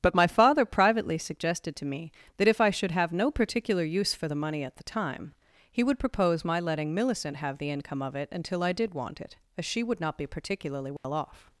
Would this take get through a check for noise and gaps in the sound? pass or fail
fail